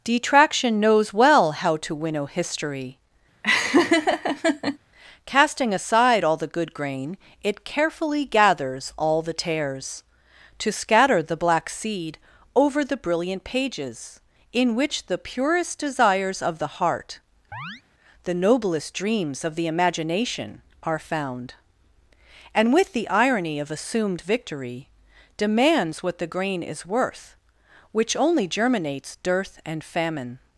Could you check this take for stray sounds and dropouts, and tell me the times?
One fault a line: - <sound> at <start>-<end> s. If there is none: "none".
- laugh at 3.4-4.8 s
- chirp at 17.5-17.8 s